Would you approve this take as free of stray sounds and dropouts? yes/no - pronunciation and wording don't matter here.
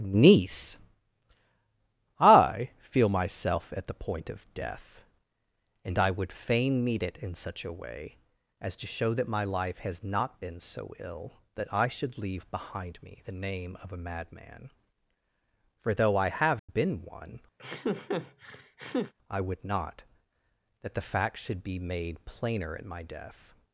no